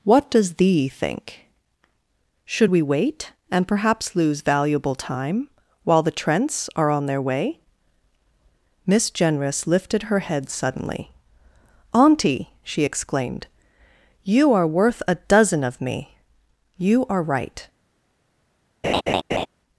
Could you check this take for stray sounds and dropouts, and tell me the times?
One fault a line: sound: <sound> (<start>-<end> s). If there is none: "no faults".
sound: laugh (18.8-19.5 s)